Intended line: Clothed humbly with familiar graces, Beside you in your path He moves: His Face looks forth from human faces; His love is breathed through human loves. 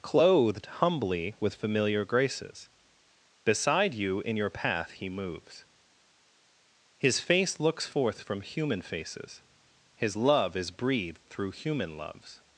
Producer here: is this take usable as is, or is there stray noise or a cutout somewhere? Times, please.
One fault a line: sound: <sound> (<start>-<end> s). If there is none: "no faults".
no faults